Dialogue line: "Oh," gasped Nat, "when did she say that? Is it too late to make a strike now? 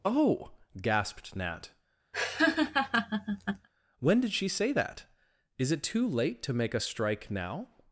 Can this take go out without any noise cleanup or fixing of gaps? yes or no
no